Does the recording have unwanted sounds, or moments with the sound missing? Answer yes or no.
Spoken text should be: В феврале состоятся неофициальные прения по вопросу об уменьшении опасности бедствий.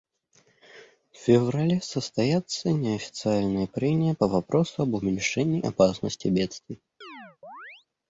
yes